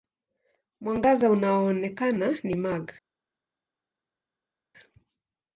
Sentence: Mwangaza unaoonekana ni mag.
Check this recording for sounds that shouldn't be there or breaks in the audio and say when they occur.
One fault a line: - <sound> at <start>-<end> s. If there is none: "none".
none